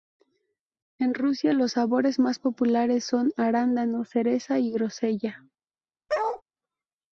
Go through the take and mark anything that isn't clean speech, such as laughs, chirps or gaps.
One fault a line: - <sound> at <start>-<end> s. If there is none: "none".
- bark at 6.1-6.4 s